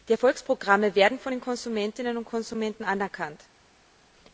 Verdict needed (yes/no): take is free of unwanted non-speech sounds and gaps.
yes